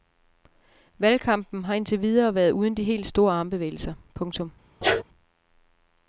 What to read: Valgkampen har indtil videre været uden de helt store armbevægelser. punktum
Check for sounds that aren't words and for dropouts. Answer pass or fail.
fail